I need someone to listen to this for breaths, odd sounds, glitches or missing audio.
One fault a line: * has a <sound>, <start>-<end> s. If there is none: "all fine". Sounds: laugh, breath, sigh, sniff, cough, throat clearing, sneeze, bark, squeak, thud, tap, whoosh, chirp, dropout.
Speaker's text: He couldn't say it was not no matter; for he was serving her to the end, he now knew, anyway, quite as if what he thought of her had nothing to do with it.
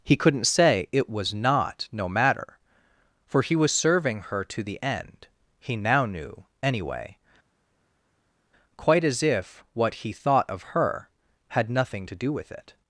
all fine